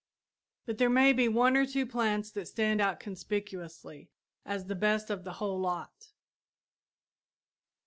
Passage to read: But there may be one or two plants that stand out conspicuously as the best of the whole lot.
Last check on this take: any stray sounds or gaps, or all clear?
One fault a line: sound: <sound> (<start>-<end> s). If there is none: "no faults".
no faults